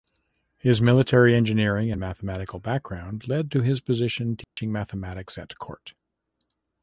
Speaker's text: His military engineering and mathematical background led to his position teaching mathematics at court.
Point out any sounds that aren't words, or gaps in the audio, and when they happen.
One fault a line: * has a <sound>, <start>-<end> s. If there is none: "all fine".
* has a dropout, 4.4-4.6 s